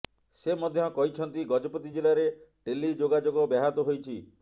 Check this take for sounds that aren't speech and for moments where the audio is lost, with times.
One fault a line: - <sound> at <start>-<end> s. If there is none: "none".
none